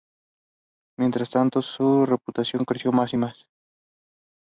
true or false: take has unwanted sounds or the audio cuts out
false